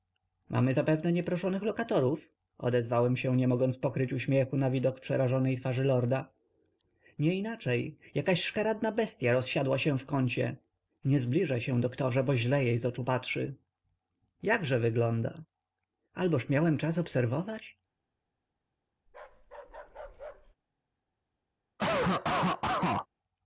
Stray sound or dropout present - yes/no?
yes